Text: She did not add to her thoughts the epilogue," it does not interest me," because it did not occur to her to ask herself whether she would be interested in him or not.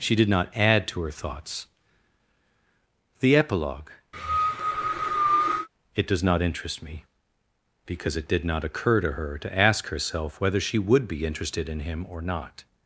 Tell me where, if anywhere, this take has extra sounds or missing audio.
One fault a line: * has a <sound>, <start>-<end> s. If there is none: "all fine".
* has a cough, 4.1-5.7 s